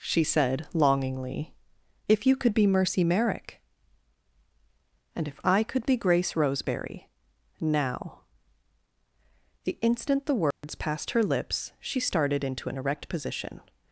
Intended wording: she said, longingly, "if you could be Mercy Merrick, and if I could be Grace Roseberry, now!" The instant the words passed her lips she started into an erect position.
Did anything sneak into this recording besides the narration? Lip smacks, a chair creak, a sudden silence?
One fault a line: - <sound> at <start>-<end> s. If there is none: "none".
- dropout at 10.5-10.6 s